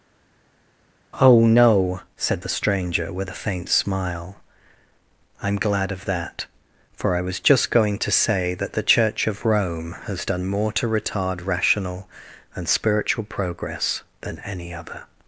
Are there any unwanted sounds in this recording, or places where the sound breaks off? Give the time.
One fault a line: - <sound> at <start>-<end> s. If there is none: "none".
none